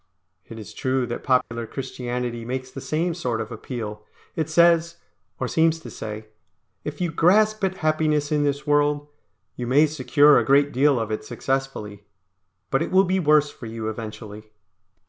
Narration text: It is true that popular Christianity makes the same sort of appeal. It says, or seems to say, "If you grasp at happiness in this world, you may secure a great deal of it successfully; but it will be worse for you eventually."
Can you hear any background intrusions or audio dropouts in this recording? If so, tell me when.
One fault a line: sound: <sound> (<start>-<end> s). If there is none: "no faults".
sound: dropout (1.4-1.5 s)